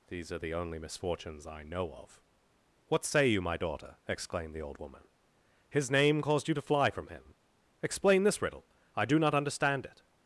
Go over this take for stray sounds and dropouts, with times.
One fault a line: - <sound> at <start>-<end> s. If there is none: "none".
none